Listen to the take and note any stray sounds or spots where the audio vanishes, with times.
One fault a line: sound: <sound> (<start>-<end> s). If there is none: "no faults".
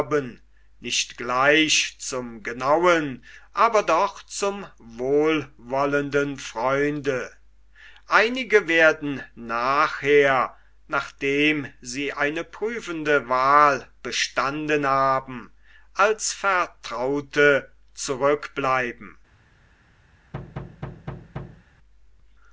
sound: thud (20.3-21.7 s)